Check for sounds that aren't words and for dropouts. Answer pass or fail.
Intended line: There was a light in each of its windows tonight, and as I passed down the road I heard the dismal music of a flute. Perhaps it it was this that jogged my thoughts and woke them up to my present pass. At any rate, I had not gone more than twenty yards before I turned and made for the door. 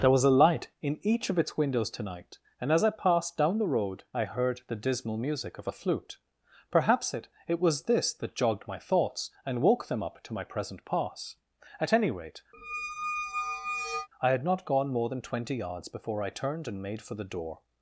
fail